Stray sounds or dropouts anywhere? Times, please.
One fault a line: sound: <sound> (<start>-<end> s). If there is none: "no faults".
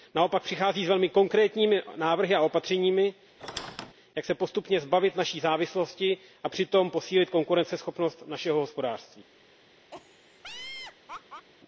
sound: squeak (3.4-3.9 s)
sound: laugh (9.9-11.5 s)